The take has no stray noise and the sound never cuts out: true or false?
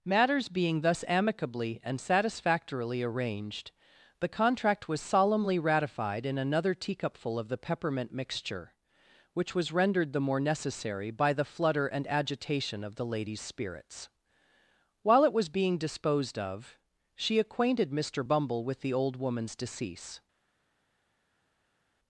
true